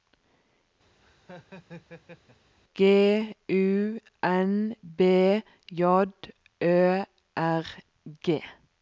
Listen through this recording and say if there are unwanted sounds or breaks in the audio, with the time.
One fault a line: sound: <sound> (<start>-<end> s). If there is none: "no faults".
sound: laugh (1.0-2.5 s)